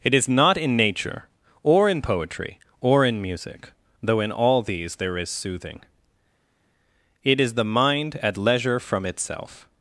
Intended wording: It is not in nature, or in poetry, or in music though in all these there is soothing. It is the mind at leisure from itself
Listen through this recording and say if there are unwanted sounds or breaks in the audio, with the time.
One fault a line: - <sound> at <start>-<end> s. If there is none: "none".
none